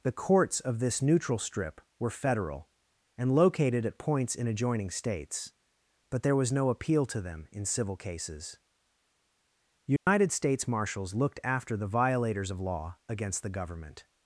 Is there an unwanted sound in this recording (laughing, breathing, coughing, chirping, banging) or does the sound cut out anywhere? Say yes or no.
yes